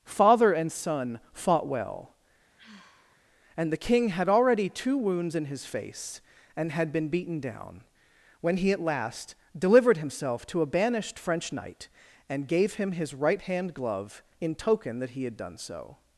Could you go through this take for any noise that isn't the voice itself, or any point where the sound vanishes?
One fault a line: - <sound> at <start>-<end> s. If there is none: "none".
- sigh at 2.6-3.2 s